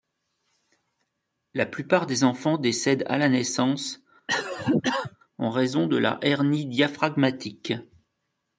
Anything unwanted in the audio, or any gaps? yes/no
yes